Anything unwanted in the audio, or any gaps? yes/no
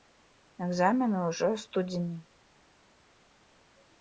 no